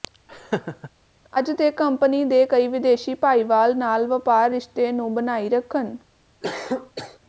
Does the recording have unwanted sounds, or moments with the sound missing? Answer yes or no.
yes